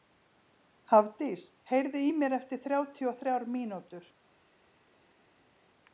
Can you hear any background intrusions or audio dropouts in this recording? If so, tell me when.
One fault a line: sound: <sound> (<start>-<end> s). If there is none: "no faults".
no faults